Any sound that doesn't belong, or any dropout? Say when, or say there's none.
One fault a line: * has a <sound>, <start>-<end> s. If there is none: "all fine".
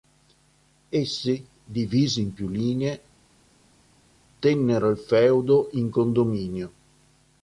all fine